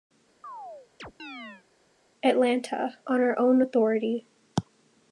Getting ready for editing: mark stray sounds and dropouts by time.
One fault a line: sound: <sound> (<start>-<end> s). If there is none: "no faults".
sound: chirp (0.4-1.6 s)